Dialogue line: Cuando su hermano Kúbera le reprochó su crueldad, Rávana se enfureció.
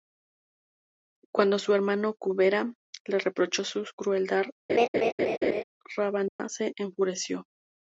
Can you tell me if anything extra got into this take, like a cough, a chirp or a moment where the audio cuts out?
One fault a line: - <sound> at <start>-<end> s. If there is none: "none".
- laugh at 4.7-5.6 s
- dropout at 6.3-6.4 s